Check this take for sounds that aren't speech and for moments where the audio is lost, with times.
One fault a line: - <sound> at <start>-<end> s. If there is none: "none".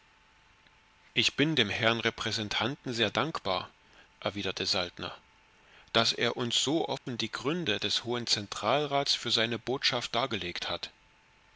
- dropout at 7.0-7.1 s